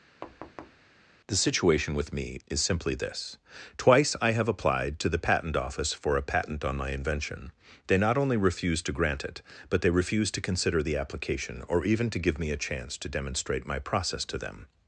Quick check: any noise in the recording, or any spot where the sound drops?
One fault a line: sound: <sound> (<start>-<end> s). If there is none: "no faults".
sound: thud (0.2-0.8 s)